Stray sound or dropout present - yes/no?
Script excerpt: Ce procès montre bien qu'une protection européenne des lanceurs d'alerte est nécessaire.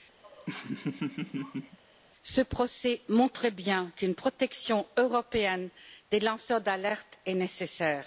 yes